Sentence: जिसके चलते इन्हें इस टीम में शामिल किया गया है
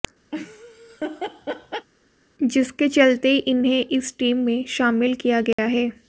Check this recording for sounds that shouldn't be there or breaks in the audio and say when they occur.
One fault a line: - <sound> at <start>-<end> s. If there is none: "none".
- laugh at 0.3-1.9 s
- dropout at 5.5-5.6 s